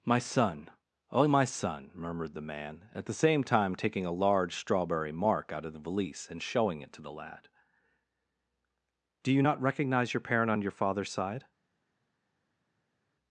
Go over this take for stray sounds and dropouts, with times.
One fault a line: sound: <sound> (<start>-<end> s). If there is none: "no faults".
no faults